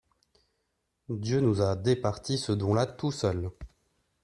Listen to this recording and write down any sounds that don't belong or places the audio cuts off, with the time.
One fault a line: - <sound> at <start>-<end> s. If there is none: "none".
none